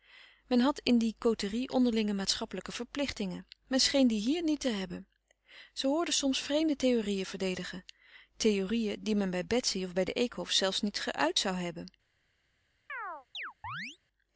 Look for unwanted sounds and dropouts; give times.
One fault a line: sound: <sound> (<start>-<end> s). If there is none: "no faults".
sound: chirp (12.9-14.0 s)